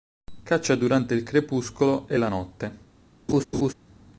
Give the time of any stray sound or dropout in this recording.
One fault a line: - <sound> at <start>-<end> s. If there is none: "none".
- laugh at 3.3-3.7 s